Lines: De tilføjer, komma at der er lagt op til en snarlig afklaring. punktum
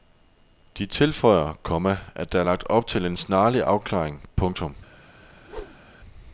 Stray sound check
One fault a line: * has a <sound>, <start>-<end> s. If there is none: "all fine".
* has a whoosh, 5.2-5.9 s